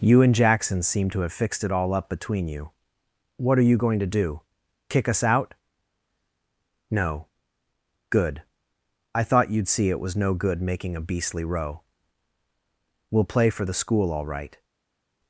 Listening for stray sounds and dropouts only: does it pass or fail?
pass